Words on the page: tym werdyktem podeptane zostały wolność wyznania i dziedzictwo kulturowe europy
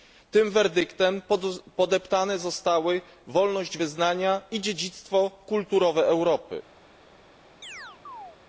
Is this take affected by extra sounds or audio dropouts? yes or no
yes